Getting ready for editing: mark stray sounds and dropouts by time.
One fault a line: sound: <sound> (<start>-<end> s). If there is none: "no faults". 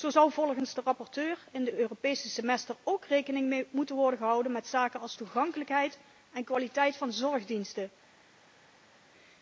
no faults